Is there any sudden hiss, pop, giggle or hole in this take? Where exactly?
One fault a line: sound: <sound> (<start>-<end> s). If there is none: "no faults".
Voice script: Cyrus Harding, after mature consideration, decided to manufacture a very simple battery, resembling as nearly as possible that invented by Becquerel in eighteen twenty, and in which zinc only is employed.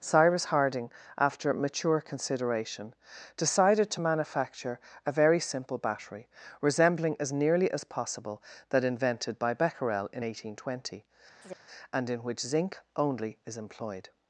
sound: chirp (11.4-11.6 s)